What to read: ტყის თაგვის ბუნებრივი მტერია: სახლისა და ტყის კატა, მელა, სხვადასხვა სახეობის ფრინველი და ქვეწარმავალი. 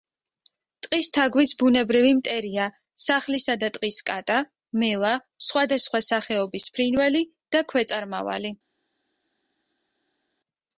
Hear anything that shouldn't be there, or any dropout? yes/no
no